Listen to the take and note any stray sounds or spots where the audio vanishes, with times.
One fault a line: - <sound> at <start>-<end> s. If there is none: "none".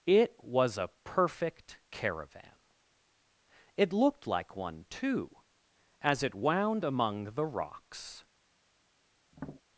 - tap at 9.3-9.6 s